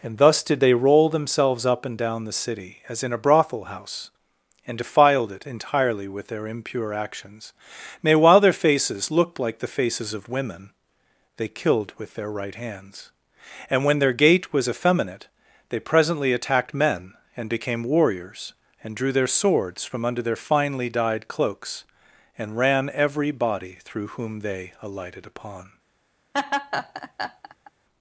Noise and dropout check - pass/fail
fail